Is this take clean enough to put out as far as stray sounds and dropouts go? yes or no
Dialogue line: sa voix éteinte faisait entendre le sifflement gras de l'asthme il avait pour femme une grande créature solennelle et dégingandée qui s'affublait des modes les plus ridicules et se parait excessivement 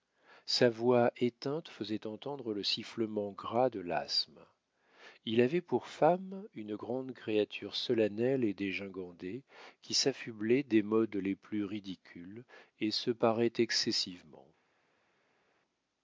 yes